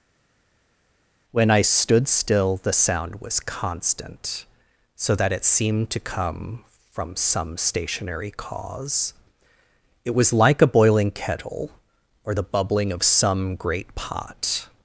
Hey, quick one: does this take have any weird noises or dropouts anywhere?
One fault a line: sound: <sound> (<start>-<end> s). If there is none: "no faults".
no faults